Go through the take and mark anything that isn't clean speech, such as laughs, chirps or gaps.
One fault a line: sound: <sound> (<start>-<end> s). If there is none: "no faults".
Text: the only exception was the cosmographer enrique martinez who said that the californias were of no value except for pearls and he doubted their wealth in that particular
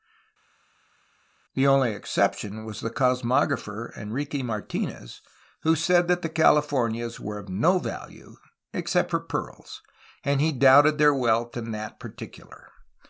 no faults